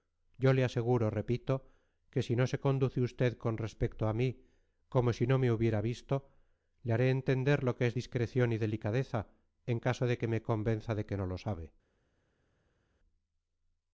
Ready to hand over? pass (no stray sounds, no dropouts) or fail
pass